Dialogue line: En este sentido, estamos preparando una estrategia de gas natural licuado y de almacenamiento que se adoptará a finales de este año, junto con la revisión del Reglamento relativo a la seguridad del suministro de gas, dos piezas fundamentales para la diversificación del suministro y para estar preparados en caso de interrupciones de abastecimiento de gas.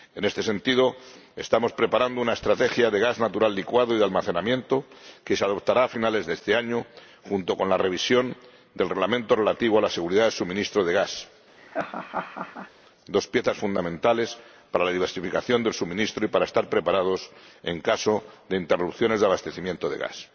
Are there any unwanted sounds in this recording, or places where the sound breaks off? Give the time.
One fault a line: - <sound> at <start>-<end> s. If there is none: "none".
- laugh at 11.6-12.7 s